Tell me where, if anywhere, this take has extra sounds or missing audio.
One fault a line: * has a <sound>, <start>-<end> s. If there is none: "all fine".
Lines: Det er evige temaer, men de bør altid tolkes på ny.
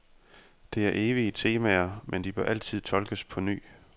all fine